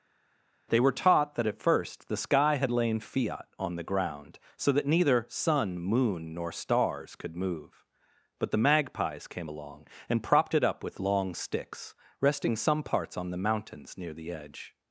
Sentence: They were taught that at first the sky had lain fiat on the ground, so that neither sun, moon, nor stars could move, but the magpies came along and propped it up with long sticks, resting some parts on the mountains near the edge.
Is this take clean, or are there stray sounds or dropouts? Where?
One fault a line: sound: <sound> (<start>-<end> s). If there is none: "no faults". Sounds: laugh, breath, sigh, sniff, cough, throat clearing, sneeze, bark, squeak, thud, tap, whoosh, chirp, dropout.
no faults